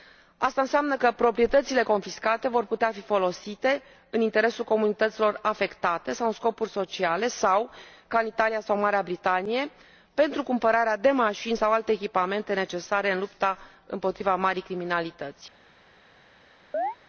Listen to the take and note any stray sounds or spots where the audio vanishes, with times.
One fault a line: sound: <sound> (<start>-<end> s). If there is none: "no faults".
sound: chirp (16.7-17.0 s)